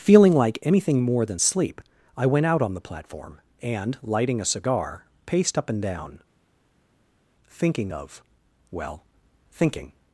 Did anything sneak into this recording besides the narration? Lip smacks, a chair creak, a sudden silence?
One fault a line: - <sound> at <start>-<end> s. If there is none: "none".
none